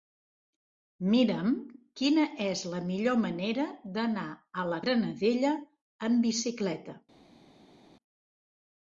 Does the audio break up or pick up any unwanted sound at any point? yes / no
no